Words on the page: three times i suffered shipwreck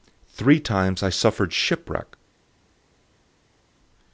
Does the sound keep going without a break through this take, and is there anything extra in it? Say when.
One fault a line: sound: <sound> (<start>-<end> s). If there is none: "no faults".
no faults